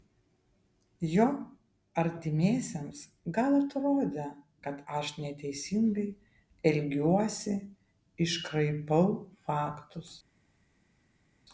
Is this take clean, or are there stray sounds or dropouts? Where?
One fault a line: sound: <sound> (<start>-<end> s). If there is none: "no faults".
no faults